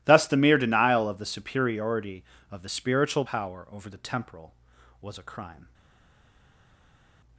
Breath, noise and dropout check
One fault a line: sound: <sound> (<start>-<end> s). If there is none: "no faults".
no faults